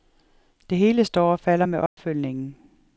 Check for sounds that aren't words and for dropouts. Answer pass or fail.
fail